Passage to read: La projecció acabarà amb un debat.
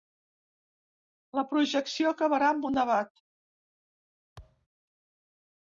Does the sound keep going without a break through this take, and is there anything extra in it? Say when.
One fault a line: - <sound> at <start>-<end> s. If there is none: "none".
- thud at 4.4-4.7 s